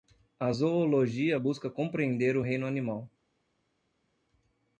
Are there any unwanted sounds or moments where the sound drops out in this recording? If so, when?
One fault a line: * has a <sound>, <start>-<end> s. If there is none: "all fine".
all fine